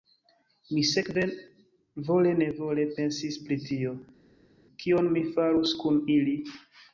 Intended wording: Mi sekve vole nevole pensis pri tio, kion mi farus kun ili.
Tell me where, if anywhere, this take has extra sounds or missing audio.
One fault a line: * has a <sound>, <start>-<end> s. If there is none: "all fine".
all fine